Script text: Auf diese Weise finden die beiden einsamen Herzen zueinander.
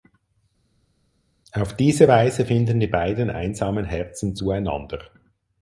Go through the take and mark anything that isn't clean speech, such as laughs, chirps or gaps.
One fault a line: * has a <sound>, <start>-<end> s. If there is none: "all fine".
all fine